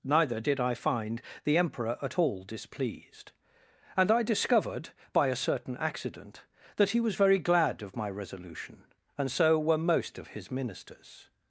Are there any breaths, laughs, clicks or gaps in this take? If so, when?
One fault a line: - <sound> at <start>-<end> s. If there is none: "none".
none